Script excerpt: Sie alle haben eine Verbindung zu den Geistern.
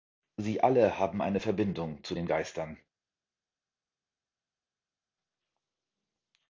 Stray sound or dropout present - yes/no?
no